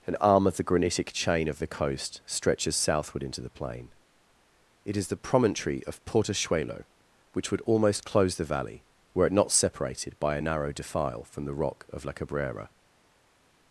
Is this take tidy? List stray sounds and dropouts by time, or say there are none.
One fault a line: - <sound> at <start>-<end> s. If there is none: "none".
none